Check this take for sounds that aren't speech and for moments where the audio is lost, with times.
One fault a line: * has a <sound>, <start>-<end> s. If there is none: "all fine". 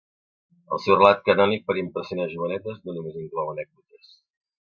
all fine